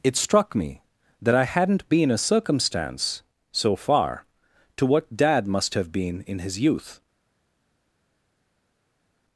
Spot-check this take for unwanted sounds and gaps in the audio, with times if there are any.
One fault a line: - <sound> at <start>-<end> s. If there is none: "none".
none